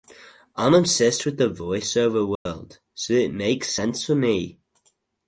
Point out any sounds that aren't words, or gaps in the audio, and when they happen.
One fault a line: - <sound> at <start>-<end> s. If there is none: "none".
- dropout at 2.4-2.5 s